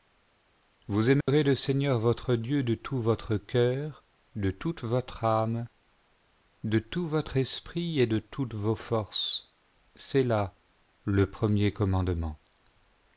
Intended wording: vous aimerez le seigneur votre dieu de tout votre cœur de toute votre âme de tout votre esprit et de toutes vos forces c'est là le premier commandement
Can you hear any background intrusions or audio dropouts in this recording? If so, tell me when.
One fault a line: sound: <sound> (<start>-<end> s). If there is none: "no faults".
sound: dropout (1.2-1.3 s)